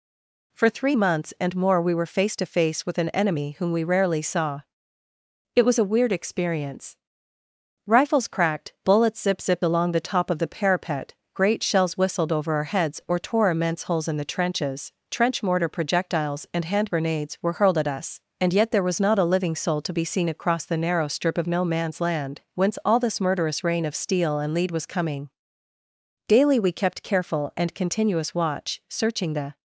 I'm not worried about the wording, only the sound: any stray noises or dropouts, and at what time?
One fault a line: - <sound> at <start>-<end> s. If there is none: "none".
none